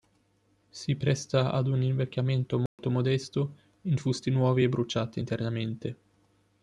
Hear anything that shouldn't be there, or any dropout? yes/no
yes